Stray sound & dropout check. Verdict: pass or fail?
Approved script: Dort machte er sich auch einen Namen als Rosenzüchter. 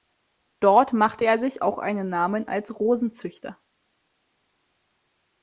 pass